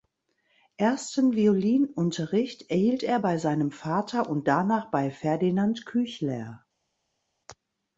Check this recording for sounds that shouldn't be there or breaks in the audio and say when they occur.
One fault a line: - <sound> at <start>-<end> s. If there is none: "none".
none